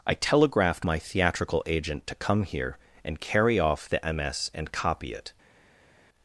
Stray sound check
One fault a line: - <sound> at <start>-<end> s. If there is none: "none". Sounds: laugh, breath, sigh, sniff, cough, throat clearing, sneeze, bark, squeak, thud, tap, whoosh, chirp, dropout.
none